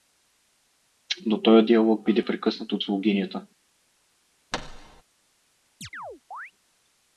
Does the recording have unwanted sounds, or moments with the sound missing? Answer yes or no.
yes